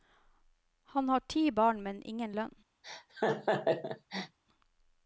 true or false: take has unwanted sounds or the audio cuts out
true